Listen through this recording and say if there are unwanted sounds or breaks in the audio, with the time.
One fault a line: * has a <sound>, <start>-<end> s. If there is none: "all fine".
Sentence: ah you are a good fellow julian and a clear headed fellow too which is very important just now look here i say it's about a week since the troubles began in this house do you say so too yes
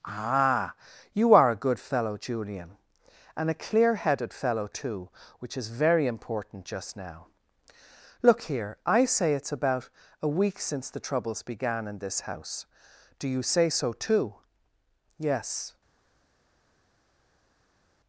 all fine